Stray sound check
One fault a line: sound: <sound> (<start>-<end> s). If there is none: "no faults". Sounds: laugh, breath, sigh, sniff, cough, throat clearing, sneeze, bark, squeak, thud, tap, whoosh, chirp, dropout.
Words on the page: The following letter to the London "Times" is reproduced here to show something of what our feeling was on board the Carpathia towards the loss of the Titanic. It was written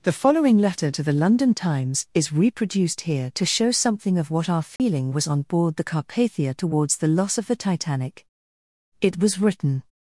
sound: dropout (4.8-4.8 s)